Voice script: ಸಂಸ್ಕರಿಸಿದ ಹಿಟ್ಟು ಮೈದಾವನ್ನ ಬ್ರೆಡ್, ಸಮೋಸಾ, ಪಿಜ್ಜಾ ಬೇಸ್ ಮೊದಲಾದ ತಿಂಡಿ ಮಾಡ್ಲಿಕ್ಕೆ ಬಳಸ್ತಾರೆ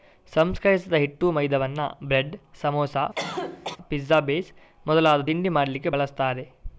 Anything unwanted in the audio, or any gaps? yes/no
yes